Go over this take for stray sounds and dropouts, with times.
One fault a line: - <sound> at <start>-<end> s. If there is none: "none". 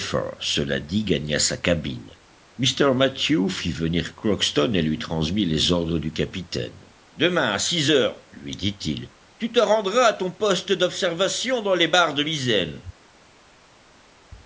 none